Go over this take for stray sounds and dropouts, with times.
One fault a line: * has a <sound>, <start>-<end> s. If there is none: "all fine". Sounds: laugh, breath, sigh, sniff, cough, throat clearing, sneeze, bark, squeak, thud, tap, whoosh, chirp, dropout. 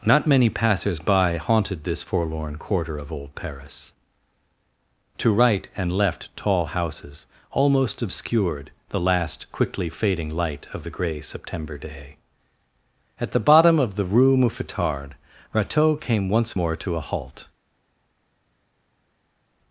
all fine